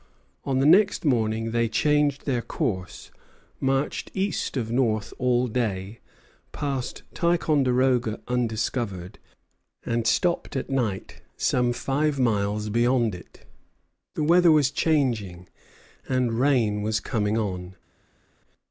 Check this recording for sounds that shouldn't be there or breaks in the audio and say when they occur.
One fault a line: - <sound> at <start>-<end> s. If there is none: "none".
none